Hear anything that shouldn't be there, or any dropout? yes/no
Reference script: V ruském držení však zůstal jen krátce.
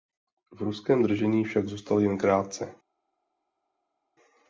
no